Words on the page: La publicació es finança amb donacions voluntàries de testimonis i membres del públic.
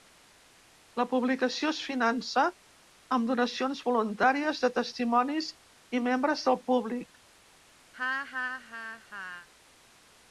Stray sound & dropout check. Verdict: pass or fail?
fail